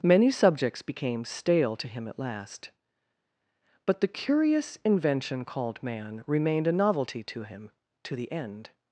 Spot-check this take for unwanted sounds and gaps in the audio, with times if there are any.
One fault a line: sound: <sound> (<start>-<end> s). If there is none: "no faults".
no faults